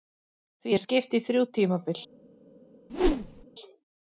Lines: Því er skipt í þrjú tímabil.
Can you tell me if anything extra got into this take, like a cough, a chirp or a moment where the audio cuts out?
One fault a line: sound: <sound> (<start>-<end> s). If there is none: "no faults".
sound: whoosh (2.9-3.4 s)